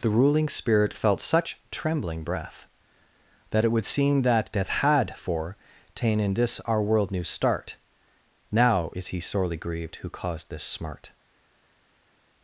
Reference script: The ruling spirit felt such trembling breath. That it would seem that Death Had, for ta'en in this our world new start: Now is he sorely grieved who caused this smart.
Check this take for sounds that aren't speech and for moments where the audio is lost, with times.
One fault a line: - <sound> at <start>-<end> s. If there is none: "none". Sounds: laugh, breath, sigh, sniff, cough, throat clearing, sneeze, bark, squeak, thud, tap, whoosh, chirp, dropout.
none